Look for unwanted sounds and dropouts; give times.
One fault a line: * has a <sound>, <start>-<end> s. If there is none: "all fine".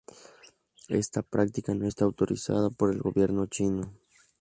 all fine